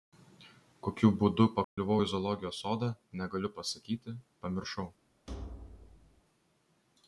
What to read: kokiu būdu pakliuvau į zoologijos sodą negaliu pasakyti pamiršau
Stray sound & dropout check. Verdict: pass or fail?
fail